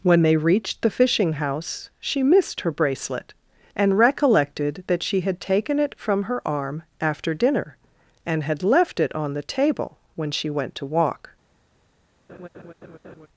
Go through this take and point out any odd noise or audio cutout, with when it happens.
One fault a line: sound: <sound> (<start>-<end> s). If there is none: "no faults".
sound: laugh (12.3-13.3 s)